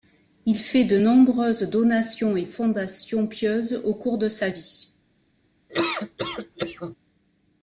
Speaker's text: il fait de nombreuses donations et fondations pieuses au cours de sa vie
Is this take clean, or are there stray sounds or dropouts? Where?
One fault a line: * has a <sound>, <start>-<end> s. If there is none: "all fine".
* has a laugh, 5.7-7.0 s